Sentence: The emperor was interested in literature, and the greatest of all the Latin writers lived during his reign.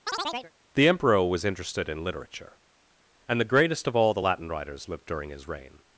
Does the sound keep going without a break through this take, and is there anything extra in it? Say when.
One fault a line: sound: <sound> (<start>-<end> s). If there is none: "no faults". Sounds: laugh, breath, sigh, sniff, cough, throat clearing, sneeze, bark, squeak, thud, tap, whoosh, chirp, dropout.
sound: chirp (0.1-0.5 s)